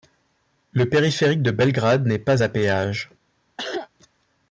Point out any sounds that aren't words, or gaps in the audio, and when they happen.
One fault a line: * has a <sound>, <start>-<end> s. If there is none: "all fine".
* has a cough, 3.6-3.9 s